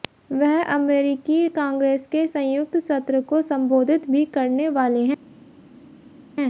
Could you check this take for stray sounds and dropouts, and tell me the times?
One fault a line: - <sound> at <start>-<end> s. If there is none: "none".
none